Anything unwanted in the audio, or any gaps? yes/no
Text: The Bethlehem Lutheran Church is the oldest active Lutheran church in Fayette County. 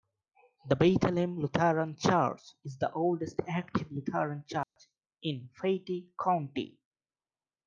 yes